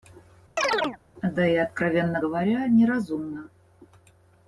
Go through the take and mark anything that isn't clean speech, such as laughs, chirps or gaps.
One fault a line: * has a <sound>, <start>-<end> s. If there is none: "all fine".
* has a chirp, 0.6-1.0 s